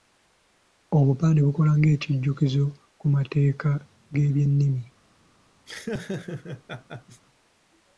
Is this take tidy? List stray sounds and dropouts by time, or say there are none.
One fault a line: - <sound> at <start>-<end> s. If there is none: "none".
- laugh at 5.7-7.2 s